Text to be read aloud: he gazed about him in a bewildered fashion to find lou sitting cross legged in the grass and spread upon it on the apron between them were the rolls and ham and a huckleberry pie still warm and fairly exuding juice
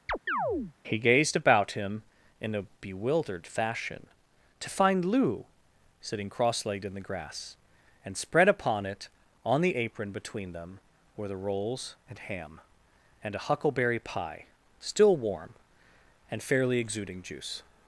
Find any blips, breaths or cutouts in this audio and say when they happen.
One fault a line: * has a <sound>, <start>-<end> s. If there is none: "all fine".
* has a chirp, 0.1-0.7 s